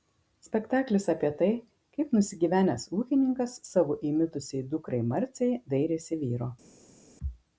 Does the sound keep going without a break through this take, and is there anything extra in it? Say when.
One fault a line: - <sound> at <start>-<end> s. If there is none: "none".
none